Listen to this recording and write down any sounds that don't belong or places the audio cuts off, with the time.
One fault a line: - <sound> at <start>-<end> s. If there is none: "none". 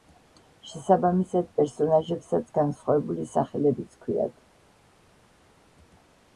none